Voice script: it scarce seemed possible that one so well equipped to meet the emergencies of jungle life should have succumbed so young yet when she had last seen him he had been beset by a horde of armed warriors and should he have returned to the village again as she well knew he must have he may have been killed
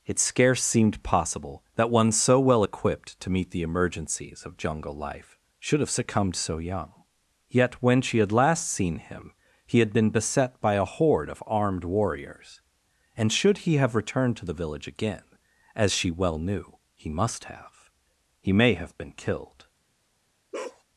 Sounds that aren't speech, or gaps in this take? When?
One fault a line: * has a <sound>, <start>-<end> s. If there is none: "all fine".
* has a bark, 20.5-20.8 s